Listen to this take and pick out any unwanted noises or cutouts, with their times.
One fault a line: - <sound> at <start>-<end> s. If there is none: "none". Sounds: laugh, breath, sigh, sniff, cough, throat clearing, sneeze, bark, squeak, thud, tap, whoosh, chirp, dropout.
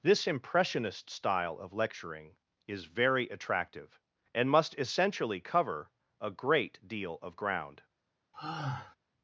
- sigh at 8.3-9.0 s